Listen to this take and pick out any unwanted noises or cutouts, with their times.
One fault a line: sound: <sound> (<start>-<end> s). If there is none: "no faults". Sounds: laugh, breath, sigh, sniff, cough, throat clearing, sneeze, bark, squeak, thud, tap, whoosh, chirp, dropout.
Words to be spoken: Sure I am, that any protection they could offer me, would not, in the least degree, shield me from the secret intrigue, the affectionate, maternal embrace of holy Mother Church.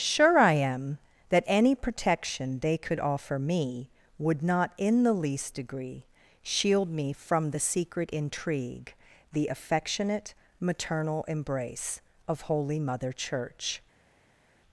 no faults